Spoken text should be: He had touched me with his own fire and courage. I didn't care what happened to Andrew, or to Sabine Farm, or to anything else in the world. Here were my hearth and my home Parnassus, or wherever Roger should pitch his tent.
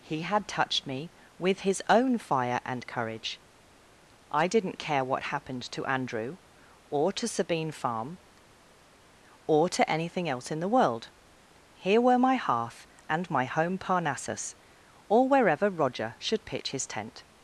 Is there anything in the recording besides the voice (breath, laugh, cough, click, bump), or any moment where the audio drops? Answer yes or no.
no